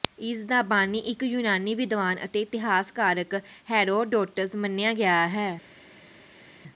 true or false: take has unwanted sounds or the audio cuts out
false